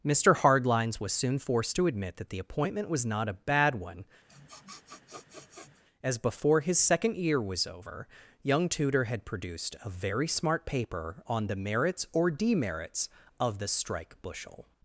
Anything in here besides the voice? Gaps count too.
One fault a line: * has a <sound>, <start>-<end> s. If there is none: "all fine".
* has a sniff, 4.3-5.8 s